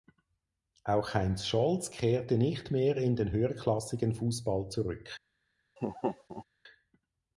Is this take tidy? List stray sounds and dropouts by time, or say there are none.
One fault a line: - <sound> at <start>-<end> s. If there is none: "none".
- laugh at 5.8-6.4 s